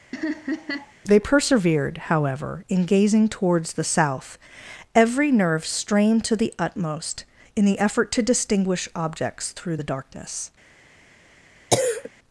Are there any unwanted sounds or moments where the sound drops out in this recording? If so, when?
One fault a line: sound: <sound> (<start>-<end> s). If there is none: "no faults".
sound: laugh (0.1-0.9 s)
sound: cough (11.7-12.1 s)